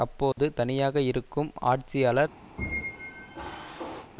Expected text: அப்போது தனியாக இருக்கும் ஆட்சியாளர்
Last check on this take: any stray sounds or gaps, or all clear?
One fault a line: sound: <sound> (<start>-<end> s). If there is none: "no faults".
sound: dropout (0.3-0.4 s)
sound: squeak (2.6-4.1 s)